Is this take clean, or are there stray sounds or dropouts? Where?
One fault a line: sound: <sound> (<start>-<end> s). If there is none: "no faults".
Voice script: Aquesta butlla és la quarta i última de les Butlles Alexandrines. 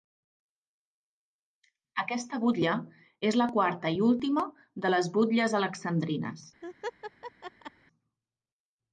sound: laugh (6.6-7.7 s)